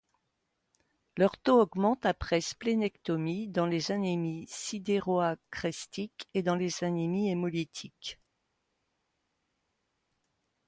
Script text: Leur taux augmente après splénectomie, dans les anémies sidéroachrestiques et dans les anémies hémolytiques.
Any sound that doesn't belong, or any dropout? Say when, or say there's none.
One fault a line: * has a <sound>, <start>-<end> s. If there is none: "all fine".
all fine